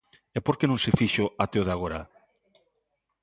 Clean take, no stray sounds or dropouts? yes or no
yes